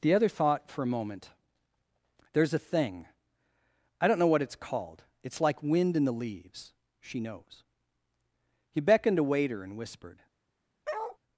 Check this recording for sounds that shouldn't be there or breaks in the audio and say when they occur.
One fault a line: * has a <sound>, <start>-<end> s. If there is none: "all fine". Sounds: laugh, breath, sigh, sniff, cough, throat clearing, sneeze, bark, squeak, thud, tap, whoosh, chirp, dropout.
* has a bark, 10.8-11.2 s